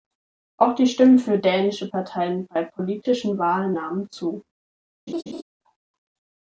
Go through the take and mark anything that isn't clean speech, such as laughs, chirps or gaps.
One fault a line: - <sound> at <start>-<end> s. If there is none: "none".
- laugh at 5.1-5.4 s